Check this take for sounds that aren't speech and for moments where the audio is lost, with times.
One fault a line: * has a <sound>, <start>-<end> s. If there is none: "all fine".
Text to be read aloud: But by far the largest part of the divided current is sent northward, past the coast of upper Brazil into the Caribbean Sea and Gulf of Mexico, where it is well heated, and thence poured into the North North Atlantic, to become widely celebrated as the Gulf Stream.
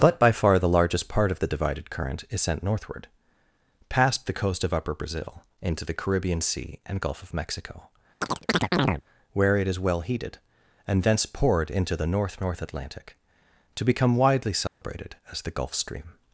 * has a chirp, 8.2-9.0 s
* has a dropout, 14.7-14.8 s